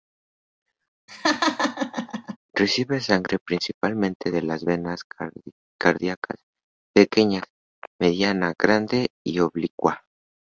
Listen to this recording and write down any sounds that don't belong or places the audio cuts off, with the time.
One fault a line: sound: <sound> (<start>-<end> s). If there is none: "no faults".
sound: laugh (1.1-2.4 s)